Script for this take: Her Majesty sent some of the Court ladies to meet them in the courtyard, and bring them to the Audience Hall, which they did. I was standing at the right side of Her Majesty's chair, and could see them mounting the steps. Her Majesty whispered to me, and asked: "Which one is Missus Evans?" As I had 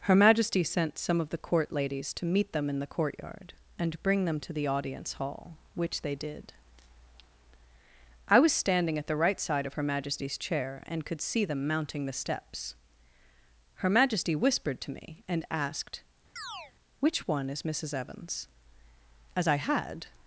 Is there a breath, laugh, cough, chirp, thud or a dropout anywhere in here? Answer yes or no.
yes